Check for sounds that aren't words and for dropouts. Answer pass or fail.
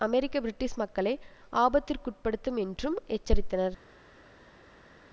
pass